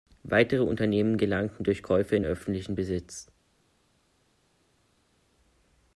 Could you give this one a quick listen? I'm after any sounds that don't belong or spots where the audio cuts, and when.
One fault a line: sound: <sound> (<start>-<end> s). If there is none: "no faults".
no faults